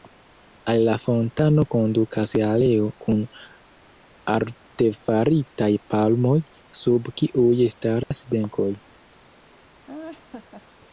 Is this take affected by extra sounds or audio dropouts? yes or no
yes